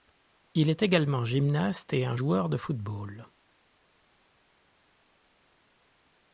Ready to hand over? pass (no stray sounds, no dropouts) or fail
pass